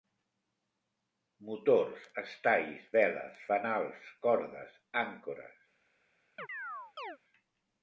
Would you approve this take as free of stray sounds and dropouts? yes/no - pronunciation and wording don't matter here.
no